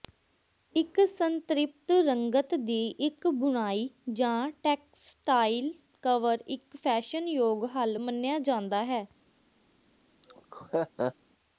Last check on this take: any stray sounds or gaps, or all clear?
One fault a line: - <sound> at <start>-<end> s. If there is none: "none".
- laugh at 10.2-11.1 s